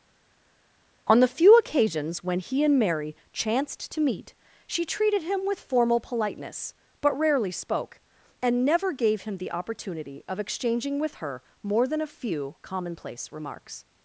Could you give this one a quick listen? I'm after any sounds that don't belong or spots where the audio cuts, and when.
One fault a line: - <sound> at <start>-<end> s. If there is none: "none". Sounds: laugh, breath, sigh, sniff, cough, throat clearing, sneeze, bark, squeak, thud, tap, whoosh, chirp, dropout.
none